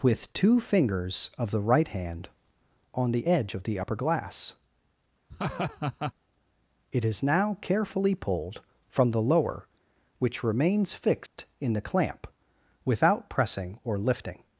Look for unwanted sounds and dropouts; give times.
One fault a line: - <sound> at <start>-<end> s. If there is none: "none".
- laugh at 5.3-6.1 s
- dropout at 11.3-11.4 s